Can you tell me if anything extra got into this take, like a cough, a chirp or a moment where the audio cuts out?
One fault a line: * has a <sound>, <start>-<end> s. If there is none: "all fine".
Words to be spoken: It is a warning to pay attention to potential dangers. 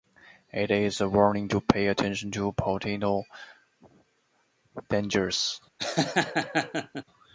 * has a laugh, 5.8-7.0 s